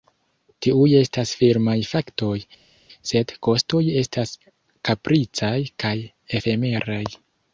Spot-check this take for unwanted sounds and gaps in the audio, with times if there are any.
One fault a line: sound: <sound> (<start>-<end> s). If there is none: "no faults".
no faults